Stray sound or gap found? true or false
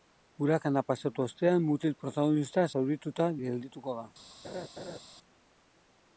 true